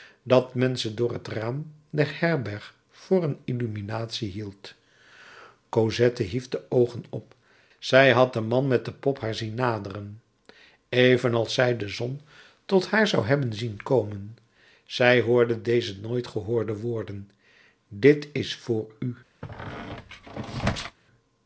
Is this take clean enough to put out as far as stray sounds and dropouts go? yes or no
no